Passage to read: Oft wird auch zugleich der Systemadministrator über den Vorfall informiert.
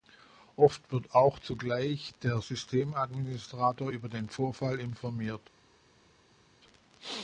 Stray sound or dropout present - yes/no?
no